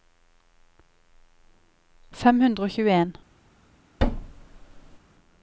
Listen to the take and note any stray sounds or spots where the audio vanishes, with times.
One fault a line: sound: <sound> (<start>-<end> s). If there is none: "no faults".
sound: thud (4.0-5.0 s)